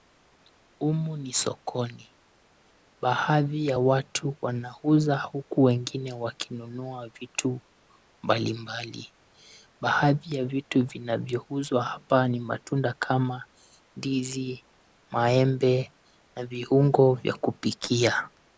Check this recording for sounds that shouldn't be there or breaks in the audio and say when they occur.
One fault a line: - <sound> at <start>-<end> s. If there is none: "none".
none